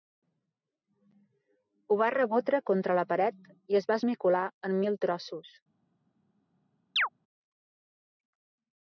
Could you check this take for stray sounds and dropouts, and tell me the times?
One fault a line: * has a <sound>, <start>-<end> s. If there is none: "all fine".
* has a chirp, 7.0-7.1 s